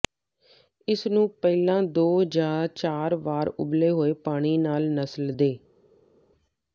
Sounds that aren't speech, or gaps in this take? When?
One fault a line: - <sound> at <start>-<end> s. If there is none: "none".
none